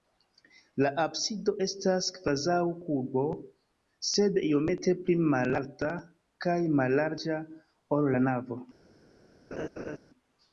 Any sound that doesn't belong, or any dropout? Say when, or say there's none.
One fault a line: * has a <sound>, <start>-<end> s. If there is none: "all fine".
* has a laugh, 9.5-10.0 s